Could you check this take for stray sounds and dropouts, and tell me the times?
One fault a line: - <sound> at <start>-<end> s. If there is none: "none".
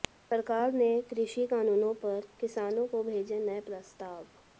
none